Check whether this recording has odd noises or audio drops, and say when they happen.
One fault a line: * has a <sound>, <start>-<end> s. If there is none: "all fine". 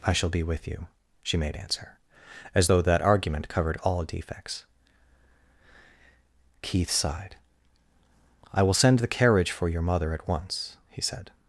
all fine